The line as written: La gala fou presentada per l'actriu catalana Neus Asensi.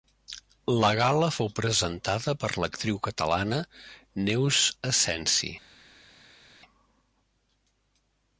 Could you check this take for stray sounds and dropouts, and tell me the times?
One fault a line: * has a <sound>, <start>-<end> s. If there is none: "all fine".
all fine